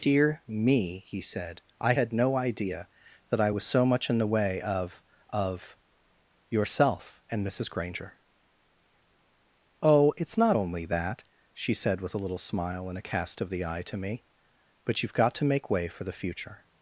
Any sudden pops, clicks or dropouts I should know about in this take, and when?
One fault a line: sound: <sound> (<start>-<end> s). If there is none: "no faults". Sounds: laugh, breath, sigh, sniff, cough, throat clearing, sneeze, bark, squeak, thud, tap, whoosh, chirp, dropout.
no faults